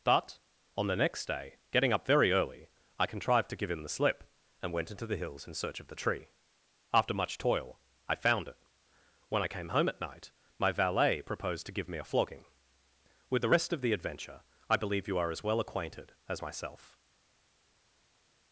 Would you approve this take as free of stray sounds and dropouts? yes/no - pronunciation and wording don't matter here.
yes